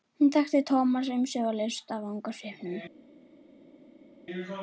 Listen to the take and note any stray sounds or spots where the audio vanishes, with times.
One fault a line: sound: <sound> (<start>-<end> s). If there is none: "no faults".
no faults